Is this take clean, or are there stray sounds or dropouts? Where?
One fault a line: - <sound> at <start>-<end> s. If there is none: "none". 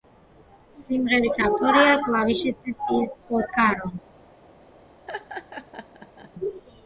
- laugh at 5.1-6.3 s